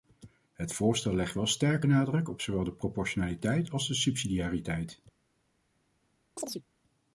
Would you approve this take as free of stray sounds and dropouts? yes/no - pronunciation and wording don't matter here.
no